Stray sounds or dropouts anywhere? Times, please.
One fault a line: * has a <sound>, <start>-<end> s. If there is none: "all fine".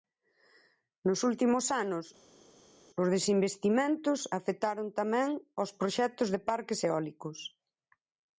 all fine